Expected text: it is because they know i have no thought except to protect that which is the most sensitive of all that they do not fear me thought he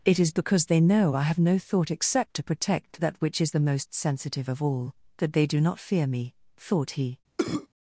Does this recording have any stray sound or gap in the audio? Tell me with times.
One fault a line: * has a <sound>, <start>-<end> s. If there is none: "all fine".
* has a cough, 7.4-7.7 s